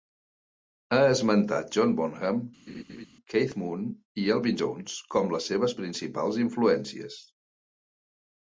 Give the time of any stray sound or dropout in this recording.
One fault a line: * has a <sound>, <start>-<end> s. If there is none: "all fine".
* has a laugh, 2.7-3.1 s